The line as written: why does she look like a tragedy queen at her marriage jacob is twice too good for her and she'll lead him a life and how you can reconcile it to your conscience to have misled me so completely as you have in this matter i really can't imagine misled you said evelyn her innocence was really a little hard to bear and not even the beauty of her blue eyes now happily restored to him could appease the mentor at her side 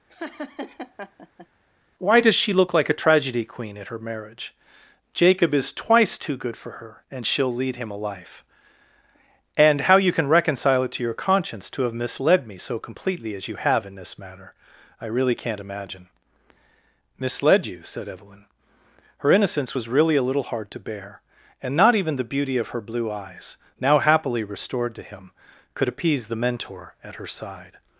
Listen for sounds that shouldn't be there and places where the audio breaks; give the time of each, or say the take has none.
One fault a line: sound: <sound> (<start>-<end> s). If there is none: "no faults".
sound: laugh (0.1-1.5 s)